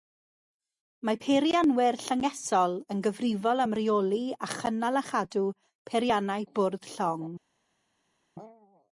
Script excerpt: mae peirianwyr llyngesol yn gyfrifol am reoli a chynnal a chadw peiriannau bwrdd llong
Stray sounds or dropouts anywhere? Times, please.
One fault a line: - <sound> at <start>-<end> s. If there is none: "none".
none